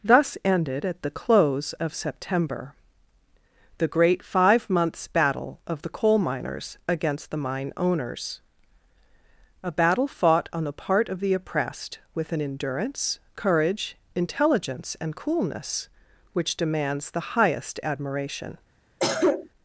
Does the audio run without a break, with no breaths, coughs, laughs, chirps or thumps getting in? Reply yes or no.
no